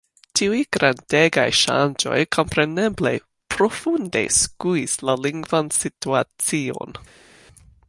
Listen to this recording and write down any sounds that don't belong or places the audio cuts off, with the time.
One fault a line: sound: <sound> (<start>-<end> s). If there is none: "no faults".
no faults